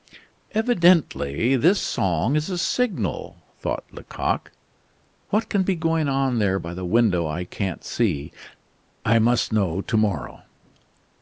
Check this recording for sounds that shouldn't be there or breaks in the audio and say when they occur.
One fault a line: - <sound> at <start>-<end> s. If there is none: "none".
none